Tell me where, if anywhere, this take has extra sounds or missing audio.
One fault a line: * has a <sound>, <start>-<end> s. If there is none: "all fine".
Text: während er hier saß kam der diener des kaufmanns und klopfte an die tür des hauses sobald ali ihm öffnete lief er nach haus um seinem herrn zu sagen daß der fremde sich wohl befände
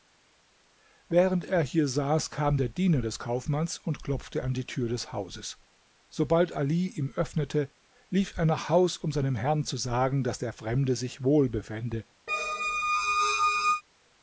* has a squeak, 12.3-13.8 s